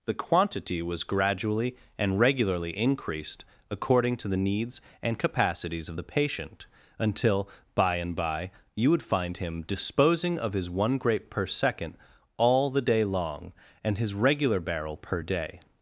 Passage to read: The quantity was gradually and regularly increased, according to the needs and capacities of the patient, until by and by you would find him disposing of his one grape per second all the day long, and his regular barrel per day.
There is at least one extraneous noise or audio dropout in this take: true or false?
false